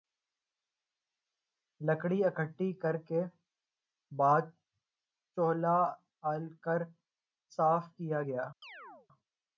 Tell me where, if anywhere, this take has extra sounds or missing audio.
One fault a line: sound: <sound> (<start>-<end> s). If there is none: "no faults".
sound: chirp (8.6-9.1 s)